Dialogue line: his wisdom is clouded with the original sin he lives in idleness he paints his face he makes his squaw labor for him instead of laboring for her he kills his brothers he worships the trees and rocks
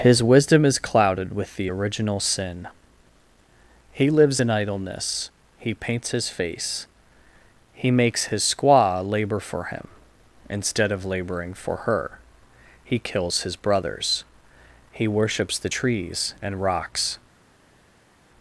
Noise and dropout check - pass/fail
pass